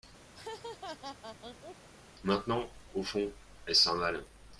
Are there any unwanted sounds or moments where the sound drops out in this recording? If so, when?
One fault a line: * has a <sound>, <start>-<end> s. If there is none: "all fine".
* has a laugh, 0.3-1.9 s